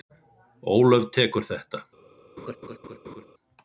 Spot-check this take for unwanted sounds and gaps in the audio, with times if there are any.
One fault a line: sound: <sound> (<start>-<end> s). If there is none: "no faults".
sound: laugh (2.4-3.3 s)